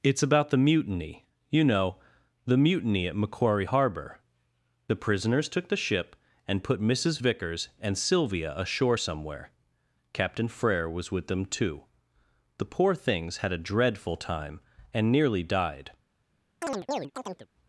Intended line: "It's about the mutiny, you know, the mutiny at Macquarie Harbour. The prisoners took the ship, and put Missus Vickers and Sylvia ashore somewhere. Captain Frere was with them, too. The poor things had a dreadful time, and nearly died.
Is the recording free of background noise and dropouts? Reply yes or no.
no